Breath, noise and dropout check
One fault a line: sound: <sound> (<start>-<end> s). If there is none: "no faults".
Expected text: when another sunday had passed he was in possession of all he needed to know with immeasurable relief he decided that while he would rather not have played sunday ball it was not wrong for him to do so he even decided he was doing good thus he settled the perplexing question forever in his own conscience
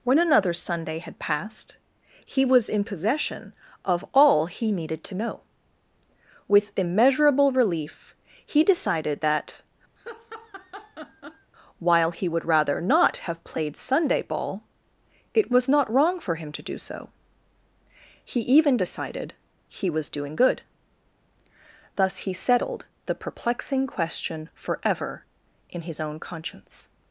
sound: laugh (10.0-11.5 s)